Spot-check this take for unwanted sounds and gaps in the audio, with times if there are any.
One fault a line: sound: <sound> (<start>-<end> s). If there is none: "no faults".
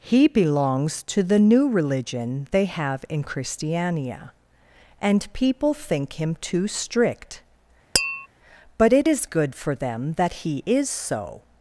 sound: tap (7.9-8.3 s)